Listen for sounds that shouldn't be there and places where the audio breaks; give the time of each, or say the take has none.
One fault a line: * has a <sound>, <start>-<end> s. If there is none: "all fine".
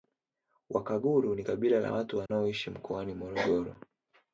* has a dropout, 2.3-2.3 s